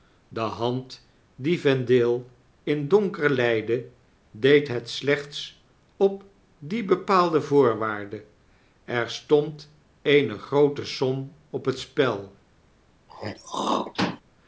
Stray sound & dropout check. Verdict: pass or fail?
fail